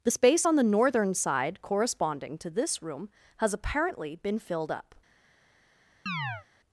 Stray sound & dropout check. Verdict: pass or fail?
fail